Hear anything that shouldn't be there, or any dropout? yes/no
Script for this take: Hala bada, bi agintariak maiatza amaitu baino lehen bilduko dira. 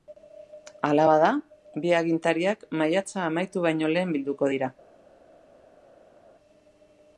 no